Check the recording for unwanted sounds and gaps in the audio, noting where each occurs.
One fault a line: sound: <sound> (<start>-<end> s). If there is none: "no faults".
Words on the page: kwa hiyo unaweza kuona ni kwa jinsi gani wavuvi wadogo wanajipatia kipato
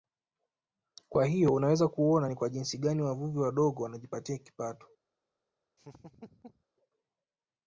sound: laugh (5.8-6.6 s)